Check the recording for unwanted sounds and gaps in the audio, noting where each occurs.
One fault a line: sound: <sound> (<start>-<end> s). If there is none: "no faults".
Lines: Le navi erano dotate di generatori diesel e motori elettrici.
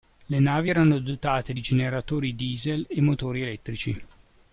no faults